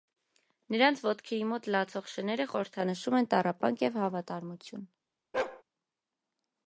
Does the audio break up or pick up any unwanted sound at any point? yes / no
yes